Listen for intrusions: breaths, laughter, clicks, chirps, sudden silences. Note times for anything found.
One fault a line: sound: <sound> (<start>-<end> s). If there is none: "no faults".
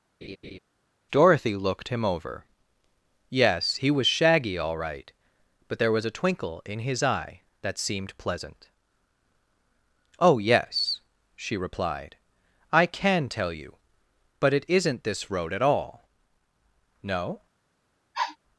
sound: laugh (0.2-0.6 s)
sound: sniff (18.1-18.4 s)